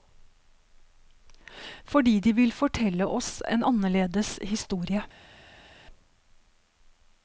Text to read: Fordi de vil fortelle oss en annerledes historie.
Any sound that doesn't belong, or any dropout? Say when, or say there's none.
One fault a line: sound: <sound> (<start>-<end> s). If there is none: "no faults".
no faults